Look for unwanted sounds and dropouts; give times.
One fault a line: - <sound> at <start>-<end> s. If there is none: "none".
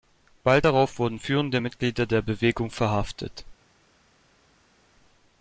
none